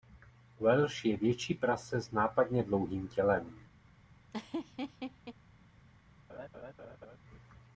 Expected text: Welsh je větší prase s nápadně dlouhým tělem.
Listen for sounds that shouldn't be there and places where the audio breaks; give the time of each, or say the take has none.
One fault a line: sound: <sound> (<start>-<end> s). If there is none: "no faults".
sound: laugh (4.3-5.3 s)
sound: laugh (6.3-7.2 s)